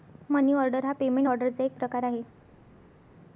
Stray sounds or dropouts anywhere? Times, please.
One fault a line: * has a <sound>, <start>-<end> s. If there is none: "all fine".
all fine